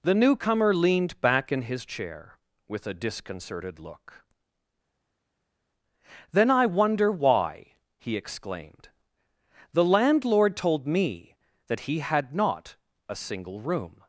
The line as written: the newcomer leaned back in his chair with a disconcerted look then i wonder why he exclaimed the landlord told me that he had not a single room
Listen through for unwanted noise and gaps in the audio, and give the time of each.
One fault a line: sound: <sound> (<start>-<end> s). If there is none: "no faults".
no faults